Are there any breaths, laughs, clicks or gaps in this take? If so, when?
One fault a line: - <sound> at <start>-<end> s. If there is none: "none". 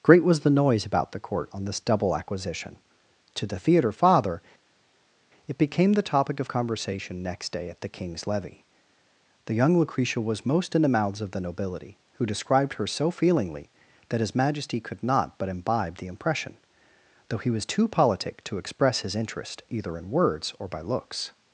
none